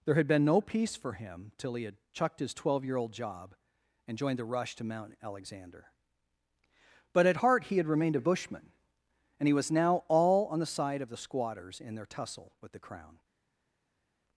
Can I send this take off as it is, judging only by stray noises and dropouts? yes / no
yes